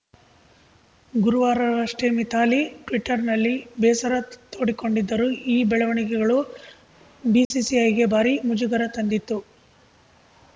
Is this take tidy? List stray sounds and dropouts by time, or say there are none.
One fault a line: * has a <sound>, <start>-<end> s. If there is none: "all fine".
* has a dropout, 7.4-7.5 s